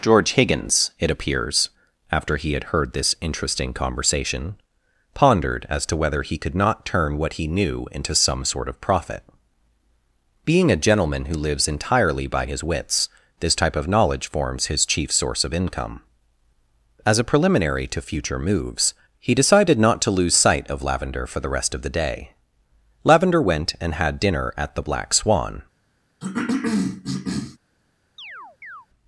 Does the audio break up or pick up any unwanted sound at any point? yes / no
yes